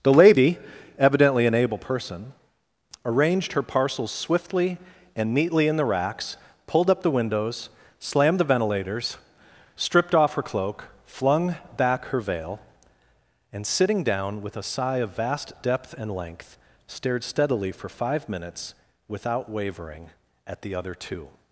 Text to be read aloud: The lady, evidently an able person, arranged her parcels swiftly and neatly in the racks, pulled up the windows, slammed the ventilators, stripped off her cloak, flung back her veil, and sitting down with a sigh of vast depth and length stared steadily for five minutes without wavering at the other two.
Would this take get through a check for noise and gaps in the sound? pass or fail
pass